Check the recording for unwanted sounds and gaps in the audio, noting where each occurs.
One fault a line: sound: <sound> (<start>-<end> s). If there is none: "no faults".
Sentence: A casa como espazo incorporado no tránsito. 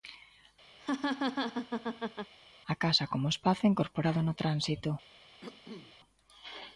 sound: laugh (0.8-2.3 s)
sound: cough (5.4-6.0 s)